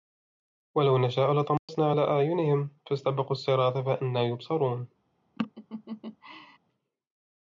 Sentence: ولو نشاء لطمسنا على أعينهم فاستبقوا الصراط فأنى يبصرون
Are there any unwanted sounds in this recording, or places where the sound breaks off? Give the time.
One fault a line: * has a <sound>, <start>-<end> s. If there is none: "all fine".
* has a dropout, 1.6-1.7 s
* has a laugh, 5.4-6.6 s